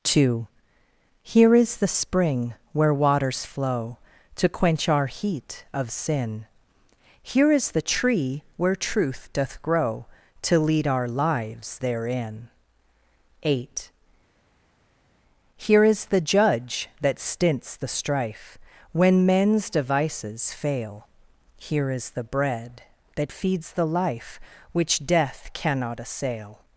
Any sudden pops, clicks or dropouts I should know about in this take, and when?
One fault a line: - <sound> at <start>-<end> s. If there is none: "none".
none